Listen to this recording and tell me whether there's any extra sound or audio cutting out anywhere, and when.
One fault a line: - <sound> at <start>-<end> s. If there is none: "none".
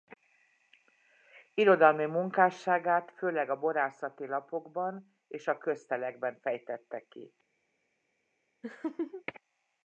- laugh at 8.6-9.2 s